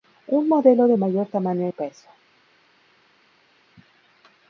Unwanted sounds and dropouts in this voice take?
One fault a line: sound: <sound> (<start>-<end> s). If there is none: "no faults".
no faults